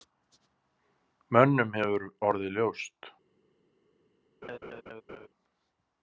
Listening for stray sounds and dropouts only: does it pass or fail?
fail